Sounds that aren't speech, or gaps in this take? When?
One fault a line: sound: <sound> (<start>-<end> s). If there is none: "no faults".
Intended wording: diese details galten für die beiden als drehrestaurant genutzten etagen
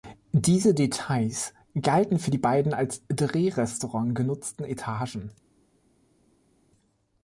no faults